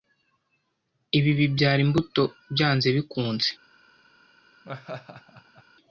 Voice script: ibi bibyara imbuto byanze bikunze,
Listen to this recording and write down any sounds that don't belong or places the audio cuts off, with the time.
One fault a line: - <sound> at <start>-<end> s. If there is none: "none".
- laugh at 4.6-5.6 s